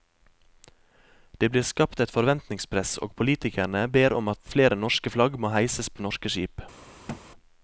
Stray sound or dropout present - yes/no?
yes